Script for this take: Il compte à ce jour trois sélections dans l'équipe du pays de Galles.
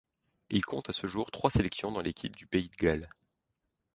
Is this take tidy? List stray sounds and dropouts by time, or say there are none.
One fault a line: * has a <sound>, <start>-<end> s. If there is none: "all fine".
all fine